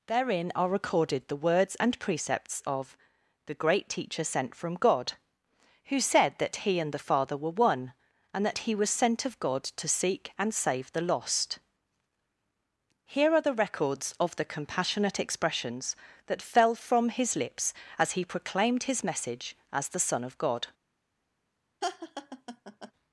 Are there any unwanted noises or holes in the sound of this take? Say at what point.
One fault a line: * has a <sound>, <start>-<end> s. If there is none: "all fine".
* has a laugh, 21.8-22.9 s